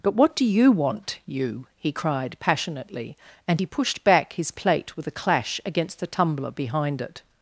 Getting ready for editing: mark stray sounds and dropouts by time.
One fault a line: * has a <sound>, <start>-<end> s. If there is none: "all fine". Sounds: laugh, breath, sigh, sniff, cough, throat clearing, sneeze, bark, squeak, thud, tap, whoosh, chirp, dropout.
all fine